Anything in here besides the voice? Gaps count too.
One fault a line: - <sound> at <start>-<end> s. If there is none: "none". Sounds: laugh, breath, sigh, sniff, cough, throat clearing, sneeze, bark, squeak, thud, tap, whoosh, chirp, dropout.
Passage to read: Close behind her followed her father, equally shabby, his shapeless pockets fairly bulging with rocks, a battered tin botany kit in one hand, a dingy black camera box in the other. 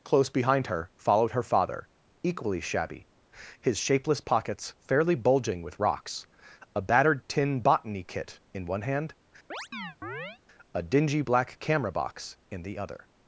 - chirp at 9.5-10.4 s